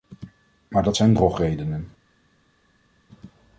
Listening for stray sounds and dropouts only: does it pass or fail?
pass